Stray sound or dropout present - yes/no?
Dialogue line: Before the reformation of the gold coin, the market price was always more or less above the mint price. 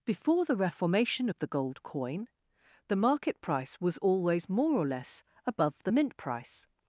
no